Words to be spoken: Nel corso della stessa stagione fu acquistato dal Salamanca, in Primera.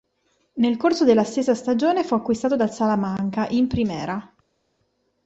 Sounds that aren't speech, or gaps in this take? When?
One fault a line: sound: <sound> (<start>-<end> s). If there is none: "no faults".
no faults